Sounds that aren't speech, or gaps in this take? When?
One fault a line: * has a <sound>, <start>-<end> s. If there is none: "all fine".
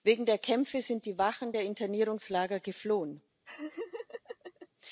* has a laugh, 3.4-4.7 s